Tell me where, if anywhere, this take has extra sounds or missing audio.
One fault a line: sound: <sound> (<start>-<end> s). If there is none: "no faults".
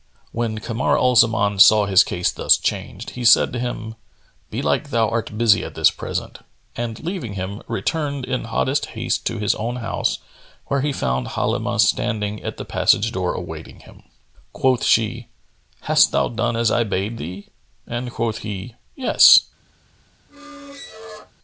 sound: squeak (20.3-21.3 s)